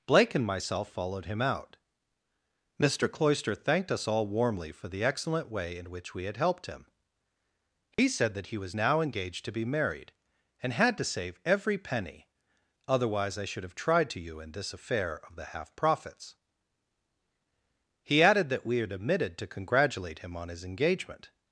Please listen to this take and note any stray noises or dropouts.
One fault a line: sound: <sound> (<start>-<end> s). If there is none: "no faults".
sound: dropout (7.9-8.0 s)